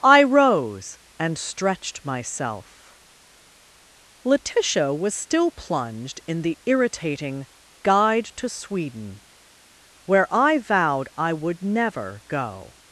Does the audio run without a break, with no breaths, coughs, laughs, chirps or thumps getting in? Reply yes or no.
yes